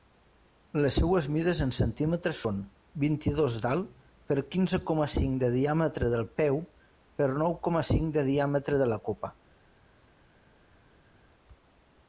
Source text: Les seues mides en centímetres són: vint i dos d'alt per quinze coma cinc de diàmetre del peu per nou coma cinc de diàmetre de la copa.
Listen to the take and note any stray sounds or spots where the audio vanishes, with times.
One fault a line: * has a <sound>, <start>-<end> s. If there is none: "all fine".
all fine